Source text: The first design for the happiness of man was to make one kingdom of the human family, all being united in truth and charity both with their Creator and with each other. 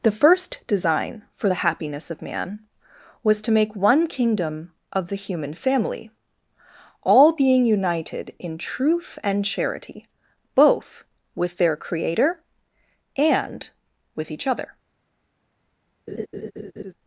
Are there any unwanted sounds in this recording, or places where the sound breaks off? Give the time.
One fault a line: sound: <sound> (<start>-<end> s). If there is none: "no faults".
sound: laugh (16.1-16.9 s)